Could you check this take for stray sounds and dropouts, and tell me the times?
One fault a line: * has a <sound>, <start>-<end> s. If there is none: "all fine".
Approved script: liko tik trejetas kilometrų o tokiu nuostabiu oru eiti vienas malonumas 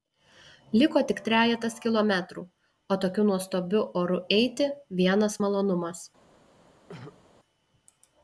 * has a throat clearing, 6.9-7.3 s